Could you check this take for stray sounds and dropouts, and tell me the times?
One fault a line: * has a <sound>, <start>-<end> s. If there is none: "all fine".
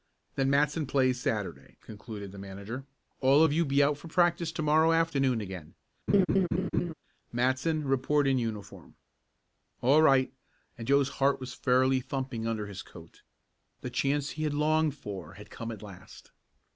* has a laugh, 6.1-6.9 s